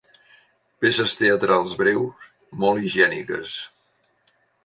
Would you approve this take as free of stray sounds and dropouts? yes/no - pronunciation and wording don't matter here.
yes